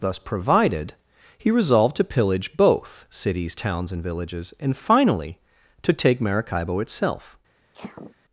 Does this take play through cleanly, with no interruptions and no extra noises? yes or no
no